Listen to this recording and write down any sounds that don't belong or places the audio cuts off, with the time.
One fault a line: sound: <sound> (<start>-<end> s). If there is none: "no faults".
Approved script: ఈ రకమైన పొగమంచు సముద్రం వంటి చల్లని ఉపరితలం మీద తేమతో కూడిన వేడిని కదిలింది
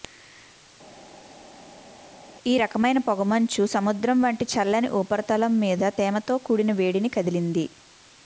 no faults